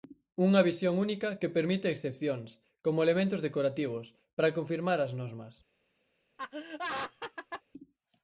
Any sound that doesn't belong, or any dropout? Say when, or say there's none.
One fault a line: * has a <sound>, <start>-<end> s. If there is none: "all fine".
* has a laugh, 6.4-7.6 s